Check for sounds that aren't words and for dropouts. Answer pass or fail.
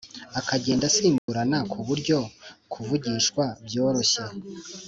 fail